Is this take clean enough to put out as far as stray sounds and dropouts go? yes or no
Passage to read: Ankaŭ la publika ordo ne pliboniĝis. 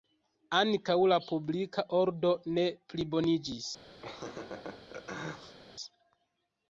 no